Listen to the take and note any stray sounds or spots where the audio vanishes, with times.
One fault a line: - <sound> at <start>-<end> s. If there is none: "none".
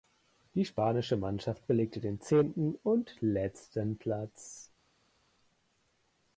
none